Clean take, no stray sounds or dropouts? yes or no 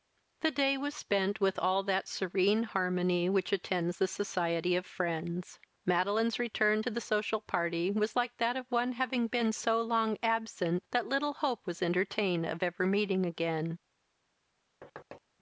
no